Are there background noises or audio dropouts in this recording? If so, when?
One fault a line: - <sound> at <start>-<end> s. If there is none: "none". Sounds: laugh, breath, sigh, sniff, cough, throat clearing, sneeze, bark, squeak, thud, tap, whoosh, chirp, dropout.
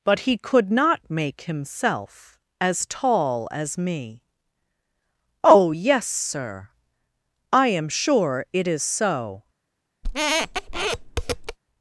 - squeak at 10.0-11.6 s